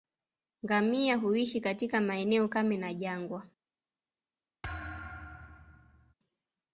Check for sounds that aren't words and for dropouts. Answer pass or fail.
fail